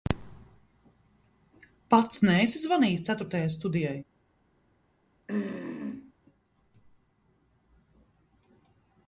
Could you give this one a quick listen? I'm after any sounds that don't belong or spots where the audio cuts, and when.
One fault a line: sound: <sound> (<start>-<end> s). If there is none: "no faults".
sound: throat clearing (5.3-6.1 s)